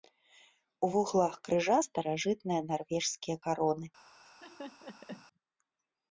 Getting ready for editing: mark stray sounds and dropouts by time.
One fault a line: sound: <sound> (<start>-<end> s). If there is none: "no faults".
sound: laugh (4.2-5.3 s)